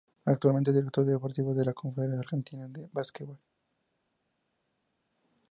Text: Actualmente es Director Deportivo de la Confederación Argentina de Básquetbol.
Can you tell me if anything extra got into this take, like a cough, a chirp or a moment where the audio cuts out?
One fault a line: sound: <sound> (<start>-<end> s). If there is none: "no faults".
no faults